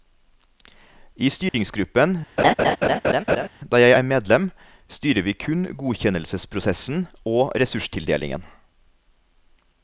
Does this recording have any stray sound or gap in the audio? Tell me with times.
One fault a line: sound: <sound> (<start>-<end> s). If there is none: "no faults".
sound: dropout (1.5-1.5 s)
sound: laugh (2.4-3.5 s)